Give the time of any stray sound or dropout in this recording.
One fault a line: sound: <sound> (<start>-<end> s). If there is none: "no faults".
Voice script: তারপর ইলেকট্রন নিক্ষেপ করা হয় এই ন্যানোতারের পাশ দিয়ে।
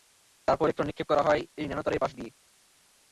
no faults